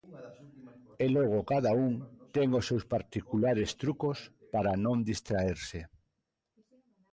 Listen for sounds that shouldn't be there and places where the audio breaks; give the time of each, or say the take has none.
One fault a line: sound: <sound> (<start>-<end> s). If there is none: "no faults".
no faults